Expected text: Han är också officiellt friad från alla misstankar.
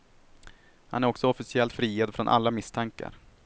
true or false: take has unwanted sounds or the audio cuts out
false